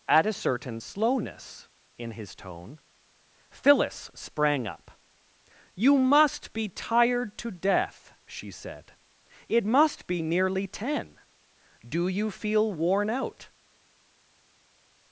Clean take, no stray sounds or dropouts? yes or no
yes